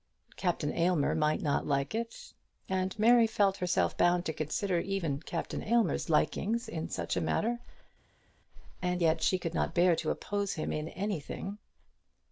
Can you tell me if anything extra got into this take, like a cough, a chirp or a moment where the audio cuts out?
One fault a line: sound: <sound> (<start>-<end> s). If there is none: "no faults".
no faults